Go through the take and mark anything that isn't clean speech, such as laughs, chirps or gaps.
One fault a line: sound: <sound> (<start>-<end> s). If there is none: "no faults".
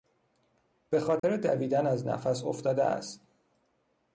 sound: dropout (1.2-1.2 s)